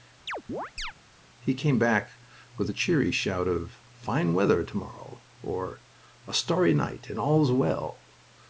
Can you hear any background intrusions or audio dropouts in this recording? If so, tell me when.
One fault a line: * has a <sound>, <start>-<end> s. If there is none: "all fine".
* has a chirp, 0.3-0.9 s